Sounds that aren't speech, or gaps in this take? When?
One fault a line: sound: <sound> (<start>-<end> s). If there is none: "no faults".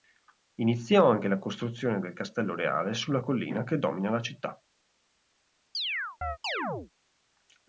sound: chirp (5.7-6.9 s)